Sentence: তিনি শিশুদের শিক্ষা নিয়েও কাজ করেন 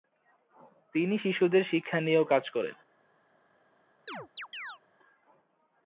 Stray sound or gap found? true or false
true